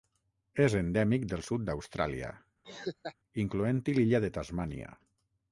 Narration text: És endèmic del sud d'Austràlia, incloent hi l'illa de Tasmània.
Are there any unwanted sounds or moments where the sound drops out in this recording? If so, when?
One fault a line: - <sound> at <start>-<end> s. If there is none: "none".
- laugh at 2.6-3.2 s